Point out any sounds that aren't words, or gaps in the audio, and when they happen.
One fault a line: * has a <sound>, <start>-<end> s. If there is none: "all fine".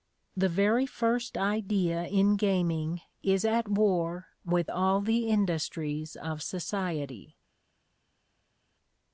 all fine